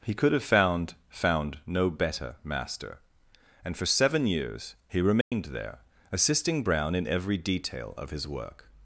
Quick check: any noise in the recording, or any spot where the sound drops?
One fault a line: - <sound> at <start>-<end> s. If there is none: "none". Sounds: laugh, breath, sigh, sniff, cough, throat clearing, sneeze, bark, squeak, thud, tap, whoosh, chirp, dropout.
- dropout at 5.2-5.3 s